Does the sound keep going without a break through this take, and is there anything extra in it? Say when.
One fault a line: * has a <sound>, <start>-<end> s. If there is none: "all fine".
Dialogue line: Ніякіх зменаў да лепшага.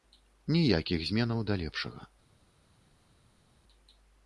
all fine